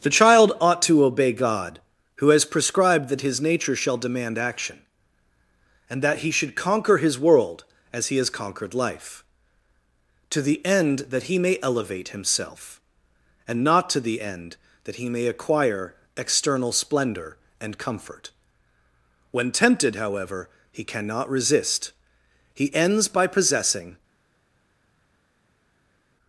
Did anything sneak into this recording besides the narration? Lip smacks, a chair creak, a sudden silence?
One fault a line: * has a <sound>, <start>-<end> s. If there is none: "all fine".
all fine